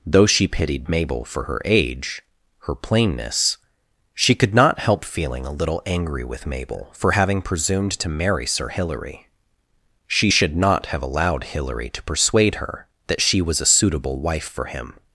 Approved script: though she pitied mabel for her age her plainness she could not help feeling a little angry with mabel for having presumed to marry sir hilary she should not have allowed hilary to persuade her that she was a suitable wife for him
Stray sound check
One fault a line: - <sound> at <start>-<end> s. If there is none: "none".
none